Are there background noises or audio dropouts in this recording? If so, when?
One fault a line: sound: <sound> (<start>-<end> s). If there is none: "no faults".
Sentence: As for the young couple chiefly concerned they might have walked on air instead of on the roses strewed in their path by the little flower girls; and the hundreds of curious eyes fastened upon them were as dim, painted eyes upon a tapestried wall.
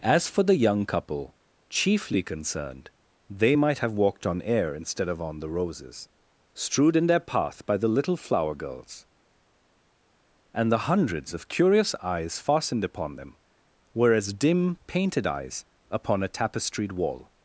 no faults